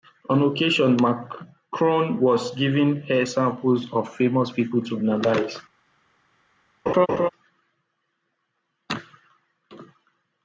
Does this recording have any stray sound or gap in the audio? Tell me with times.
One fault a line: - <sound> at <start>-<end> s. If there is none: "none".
- laugh at 6.9-7.3 s